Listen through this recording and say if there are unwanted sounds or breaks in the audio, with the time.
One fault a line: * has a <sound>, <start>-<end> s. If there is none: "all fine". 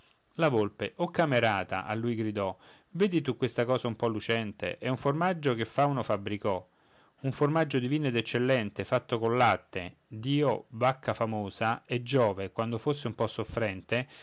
all fine